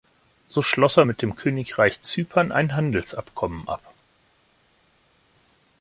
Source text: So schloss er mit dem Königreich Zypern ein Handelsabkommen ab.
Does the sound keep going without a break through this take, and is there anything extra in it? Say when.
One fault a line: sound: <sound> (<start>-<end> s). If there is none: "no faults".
no faults